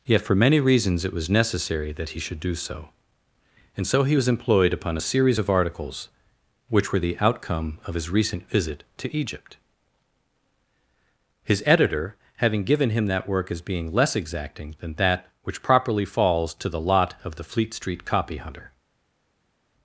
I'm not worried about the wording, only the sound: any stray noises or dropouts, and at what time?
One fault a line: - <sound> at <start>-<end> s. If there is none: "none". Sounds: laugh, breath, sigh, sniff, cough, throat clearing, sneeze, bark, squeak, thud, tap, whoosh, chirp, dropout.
none